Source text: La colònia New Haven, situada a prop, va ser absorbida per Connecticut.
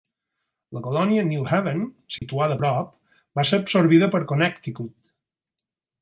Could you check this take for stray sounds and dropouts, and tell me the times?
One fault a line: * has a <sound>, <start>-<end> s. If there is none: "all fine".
* has a dropout, 2.2-2.2 s